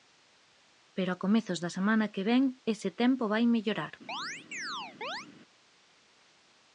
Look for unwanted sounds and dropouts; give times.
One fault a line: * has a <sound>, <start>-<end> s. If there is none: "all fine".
* has a chirp, 4.1-5.3 s